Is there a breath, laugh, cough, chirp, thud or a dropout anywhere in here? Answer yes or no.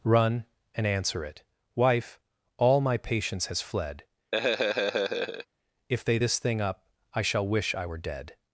yes